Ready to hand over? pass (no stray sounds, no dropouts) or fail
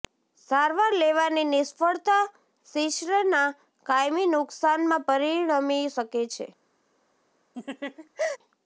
fail